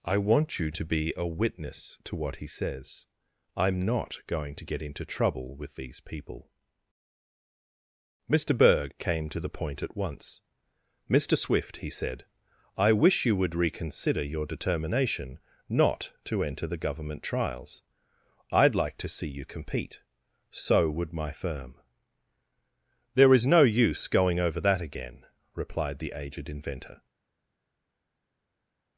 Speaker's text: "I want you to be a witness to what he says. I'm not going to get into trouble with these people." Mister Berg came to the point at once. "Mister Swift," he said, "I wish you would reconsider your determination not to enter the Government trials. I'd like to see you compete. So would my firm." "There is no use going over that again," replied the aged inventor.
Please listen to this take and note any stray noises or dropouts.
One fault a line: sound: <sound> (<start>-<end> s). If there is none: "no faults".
no faults